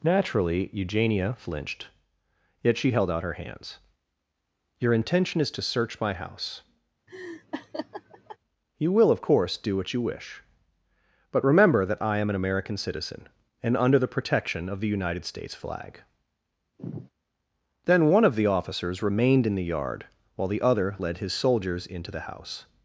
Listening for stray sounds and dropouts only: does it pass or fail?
fail